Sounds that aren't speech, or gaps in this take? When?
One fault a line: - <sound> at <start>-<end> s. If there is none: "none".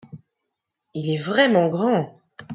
none